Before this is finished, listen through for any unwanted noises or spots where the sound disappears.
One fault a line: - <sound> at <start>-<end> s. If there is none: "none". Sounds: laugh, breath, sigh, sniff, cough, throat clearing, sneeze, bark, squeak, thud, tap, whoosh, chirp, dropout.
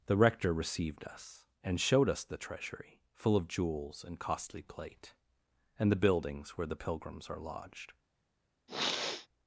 - sniff at 8.7-9.3 s